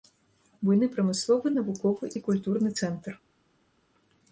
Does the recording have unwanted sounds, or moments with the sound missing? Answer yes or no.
no